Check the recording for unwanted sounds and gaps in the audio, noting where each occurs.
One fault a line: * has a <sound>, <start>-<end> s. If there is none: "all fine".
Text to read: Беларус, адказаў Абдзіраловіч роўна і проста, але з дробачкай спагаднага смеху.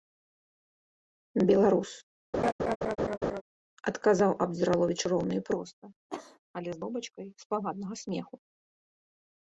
* has a laugh, 2.3-3.4 s
* has a cough, 6.1-6.4 s